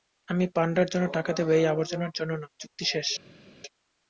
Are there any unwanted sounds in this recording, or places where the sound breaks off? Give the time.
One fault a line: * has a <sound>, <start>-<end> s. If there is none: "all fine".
all fine